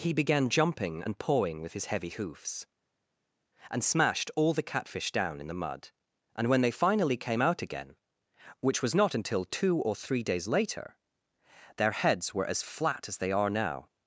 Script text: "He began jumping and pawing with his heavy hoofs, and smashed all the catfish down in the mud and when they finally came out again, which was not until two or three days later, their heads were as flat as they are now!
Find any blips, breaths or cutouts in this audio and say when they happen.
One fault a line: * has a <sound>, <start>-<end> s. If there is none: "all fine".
all fine